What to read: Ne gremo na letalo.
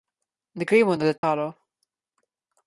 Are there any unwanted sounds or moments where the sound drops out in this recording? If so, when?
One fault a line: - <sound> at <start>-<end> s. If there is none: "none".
- dropout at 1.2-1.2 s